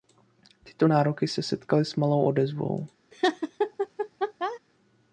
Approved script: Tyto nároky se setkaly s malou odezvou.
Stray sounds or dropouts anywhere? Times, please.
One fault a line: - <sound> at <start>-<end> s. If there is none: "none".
- laugh at 3.1-4.6 s